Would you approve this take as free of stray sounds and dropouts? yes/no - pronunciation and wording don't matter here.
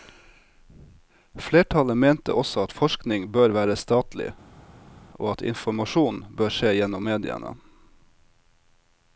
yes